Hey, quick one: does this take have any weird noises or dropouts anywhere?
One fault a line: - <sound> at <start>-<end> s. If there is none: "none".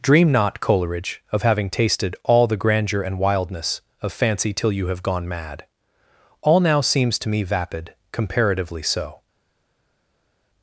none